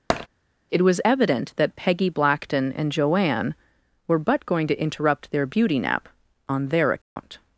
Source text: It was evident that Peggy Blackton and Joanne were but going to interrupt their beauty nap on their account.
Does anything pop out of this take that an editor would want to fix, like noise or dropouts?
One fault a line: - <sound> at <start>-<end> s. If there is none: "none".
- tap at 0.1-0.3 s
- dropout at 7.0-7.2 s